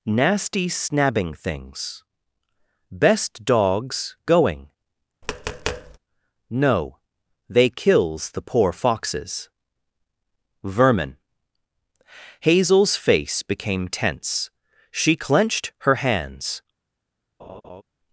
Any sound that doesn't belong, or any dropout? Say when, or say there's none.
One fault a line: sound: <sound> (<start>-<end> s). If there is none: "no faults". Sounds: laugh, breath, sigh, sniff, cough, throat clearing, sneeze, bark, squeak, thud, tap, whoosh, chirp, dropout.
sound: tap (5.2-6.0 s)
sound: laugh (17.4-17.8 s)